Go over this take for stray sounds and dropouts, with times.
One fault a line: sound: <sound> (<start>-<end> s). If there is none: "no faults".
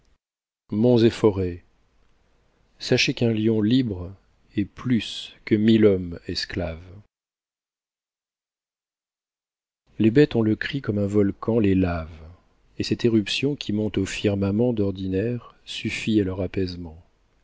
no faults